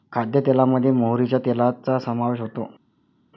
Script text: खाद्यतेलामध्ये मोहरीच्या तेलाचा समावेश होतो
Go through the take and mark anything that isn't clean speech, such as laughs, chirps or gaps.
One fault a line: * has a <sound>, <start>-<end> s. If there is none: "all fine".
all fine